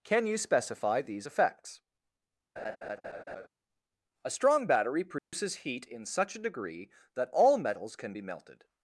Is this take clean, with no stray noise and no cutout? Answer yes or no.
no